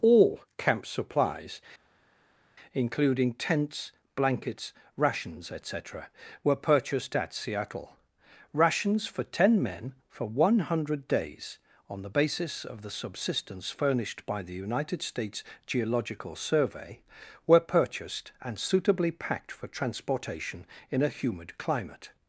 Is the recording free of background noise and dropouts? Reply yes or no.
yes